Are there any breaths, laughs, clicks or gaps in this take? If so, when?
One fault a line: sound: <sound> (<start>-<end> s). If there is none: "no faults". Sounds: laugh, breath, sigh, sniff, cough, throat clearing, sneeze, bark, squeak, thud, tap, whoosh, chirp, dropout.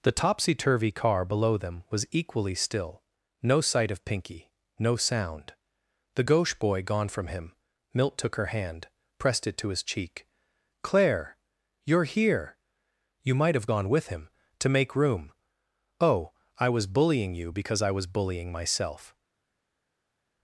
no faults